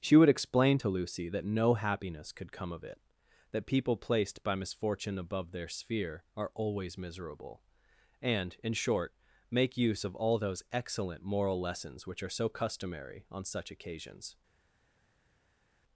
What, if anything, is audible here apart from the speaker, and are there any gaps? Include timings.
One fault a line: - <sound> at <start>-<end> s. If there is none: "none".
none